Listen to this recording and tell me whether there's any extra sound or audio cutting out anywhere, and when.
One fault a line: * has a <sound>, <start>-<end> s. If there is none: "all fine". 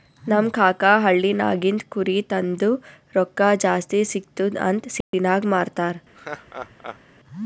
* has a dropout, 5.0-5.1 s
* has a laugh, 6.1-7.0 s